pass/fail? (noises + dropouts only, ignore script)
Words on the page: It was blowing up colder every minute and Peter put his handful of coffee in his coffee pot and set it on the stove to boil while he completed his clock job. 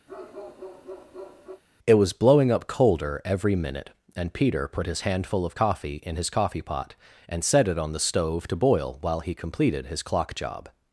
fail